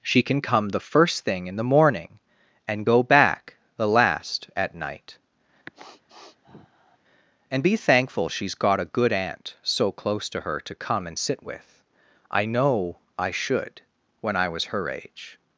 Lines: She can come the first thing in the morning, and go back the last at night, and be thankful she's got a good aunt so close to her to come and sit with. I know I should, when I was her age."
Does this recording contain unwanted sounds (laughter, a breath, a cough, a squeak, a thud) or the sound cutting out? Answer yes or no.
yes